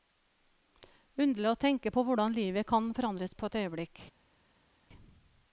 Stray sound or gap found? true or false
false